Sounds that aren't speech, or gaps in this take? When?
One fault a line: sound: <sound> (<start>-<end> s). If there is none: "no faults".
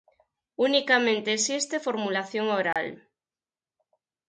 sound: dropout (2.7-2.8 s)